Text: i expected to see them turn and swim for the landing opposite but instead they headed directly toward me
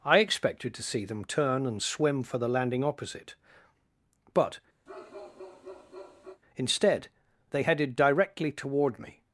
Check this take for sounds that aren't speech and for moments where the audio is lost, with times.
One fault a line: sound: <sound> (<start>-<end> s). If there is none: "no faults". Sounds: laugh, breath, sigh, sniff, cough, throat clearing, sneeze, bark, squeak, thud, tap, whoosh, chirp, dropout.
sound: bark (4.9-6.4 s)